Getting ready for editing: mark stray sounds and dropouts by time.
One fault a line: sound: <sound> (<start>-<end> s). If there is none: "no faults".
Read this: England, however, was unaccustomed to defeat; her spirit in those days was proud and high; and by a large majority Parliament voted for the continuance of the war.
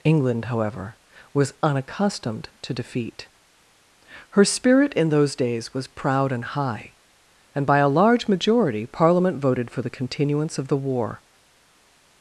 no faults